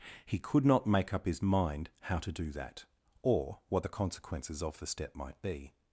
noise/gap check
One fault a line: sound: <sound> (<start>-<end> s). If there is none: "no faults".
no faults